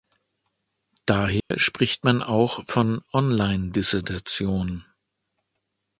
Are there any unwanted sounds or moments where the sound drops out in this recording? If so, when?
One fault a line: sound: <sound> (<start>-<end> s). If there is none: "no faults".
sound: dropout (1.4-1.5 s)